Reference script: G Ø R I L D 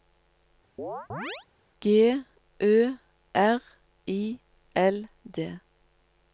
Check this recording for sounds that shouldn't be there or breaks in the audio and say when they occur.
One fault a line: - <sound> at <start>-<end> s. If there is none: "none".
- chirp at 0.8-1.5 s